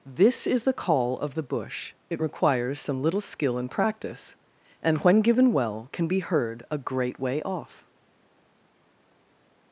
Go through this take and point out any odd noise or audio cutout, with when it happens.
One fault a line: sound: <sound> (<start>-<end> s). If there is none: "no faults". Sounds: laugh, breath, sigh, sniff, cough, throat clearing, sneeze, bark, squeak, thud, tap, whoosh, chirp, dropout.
no faults